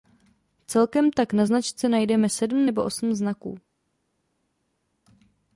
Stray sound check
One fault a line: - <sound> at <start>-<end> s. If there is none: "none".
none